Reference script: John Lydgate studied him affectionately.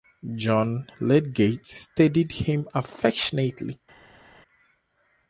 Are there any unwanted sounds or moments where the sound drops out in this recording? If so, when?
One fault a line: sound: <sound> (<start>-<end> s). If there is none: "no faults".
no faults